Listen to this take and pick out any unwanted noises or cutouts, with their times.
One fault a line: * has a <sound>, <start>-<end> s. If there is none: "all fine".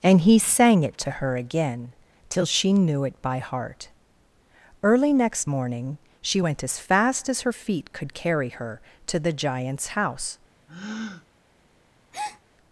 * has a breath, 10.7-11.3 s
* has a breath, 12.1-12.4 s